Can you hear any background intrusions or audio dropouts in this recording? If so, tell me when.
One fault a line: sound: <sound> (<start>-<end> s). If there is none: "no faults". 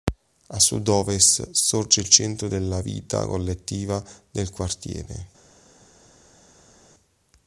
no faults